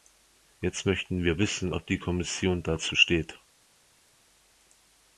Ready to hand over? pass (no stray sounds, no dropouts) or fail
pass